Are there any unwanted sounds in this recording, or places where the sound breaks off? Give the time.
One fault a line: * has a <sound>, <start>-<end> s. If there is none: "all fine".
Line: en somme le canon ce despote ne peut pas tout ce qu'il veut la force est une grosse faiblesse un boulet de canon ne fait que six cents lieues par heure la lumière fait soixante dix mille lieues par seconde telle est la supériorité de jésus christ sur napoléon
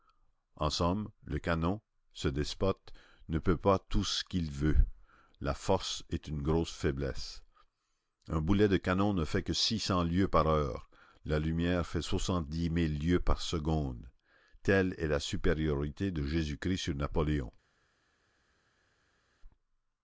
all fine